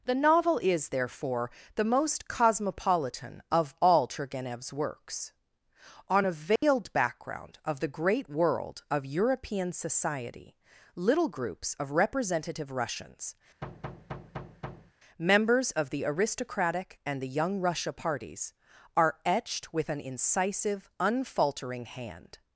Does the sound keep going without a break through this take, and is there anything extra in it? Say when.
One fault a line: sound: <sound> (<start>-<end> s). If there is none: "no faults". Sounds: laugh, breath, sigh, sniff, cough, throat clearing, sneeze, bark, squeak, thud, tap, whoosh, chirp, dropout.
sound: dropout (6.6-6.6 s)
sound: thud (13.6-14.9 s)